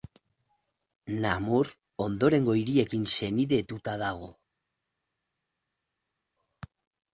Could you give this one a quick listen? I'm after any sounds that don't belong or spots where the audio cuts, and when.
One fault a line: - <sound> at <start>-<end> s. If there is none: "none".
none